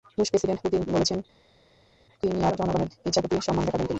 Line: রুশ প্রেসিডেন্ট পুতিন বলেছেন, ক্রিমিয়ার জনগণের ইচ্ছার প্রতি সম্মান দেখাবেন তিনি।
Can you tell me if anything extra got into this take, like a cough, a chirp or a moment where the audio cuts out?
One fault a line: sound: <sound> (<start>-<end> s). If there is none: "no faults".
no faults